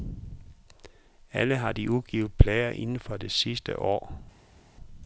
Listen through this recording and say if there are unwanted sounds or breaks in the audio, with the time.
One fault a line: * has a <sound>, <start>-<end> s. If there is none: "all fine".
all fine